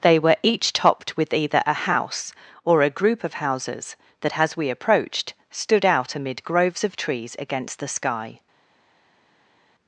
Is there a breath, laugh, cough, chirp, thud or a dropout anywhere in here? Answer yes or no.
no